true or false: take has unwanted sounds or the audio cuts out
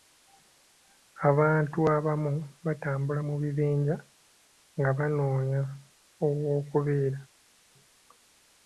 false